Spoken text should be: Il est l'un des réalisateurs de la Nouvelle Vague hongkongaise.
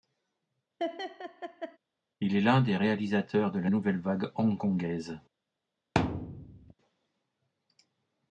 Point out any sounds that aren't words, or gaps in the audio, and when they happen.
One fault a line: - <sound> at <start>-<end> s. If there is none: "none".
- laugh at 0.8-1.8 s
- thud at 5.9-6.7 s